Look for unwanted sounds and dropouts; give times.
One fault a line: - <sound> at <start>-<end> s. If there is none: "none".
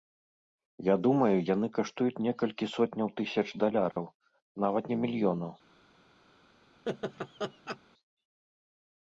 - dropout at 3.9-4.0 s
- laugh at 6.9-7.8 s